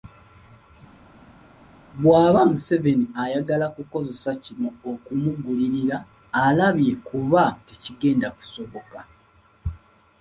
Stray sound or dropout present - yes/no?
no